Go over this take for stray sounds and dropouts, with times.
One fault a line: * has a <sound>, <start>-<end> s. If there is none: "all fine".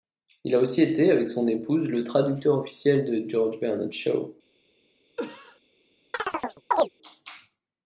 * has a cough, 5.2-5.6 s
* has a chirp, 6.1-6.9 s